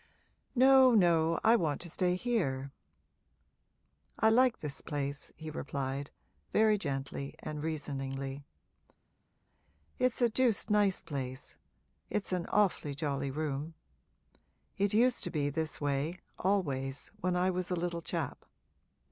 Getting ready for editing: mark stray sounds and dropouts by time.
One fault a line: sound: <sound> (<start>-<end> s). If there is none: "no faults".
no faults